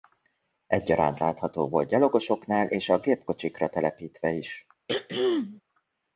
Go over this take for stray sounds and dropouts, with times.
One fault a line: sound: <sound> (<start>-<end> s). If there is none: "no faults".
sound: throat clearing (4.9-5.6 s)